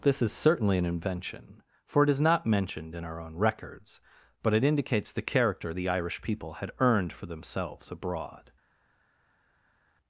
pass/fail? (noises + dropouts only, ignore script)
pass